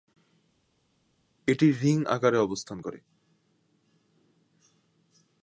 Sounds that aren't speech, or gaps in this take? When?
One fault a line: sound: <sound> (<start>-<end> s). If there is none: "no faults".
no faults